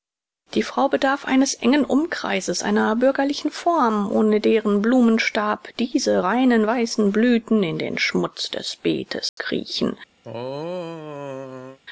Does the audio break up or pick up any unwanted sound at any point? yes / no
yes